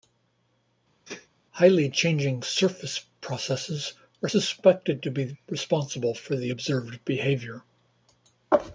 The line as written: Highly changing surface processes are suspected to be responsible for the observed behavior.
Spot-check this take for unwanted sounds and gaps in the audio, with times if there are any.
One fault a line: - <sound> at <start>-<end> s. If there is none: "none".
- sneeze at 1.0-1.3 s